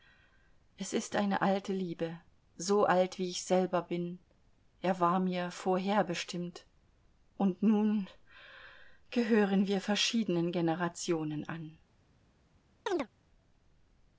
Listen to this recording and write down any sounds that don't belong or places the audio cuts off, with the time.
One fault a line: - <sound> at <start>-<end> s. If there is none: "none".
- chirp at 12.9-13.1 s